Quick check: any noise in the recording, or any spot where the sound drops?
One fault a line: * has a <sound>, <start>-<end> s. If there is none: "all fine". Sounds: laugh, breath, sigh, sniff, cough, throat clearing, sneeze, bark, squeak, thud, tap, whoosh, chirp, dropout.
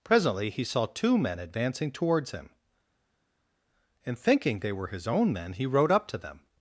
all fine